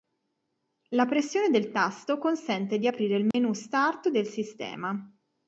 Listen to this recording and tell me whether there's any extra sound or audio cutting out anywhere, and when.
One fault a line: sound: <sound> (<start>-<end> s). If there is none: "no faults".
sound: dropout (3.3-3.3 s)